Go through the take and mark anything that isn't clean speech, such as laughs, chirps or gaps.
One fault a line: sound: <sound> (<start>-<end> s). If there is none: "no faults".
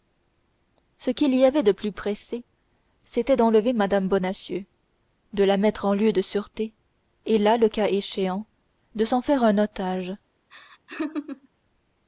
sound: laugh (10.5-11.5 s)